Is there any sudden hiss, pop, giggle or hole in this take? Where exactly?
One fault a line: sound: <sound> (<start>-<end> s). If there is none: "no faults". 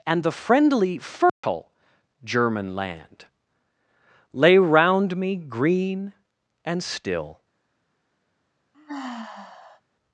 sound: dropout (1.3-1.4 s)
sound: sigh (8.7-9.8 s)